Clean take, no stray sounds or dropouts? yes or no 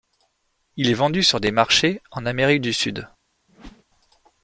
no